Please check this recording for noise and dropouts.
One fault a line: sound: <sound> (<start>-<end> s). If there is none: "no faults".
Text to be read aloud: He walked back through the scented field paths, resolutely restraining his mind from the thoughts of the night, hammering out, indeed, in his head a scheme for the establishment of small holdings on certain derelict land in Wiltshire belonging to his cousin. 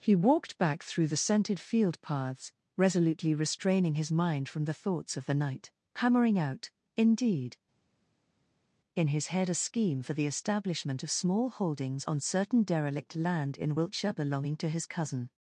no faults